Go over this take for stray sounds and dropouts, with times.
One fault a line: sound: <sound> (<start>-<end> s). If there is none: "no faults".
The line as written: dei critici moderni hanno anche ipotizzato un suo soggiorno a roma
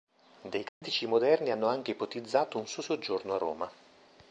sound: dropout (0.7-0.8 s)